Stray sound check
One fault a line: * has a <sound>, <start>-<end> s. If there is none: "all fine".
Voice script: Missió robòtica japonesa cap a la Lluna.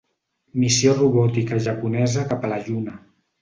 all fine